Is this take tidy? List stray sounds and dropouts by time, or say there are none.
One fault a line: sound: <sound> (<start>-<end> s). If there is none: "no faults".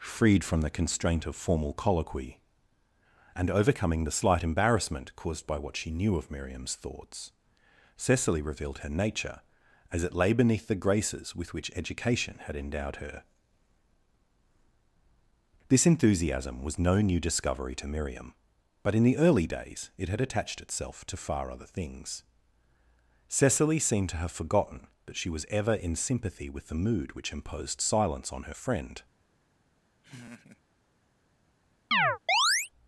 sound: laugh (30.0-30.6 s)
sound: chirp (31.9-32.7 s)